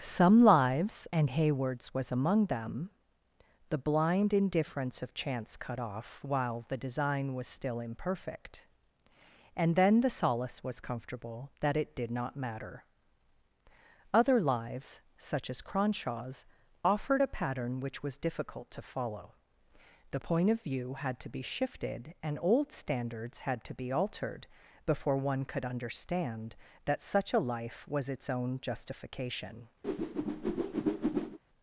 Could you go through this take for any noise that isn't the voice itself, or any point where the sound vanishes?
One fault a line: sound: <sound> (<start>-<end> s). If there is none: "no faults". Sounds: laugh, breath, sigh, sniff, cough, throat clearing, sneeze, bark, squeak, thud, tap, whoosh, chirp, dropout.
sound: whoosh (29.8-31.4 s)